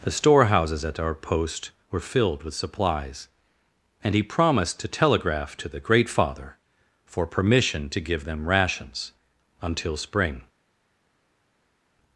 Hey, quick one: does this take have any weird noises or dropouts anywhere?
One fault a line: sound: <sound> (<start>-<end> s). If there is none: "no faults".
no faults